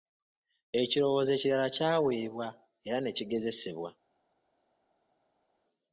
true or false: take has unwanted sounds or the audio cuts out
false